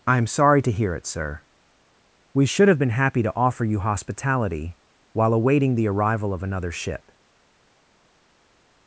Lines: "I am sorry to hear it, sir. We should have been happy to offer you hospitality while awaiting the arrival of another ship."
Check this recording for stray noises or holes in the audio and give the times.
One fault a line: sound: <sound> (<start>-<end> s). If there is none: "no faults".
no faults